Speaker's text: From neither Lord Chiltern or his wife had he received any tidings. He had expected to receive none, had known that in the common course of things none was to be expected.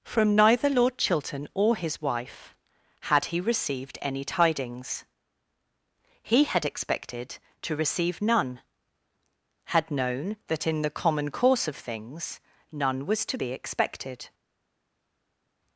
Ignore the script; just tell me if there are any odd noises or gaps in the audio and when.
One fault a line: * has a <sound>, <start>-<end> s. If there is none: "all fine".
all fine